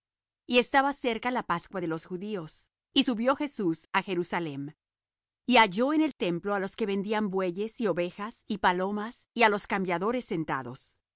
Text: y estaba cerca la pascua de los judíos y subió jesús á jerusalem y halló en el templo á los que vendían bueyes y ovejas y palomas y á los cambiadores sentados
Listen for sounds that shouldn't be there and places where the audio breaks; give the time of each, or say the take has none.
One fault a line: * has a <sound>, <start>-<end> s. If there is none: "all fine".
all fine